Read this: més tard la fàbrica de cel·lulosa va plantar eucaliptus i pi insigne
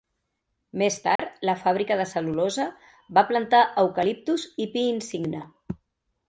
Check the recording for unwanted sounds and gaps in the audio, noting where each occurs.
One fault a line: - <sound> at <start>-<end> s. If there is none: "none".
- dropout at 1.2-1.2 s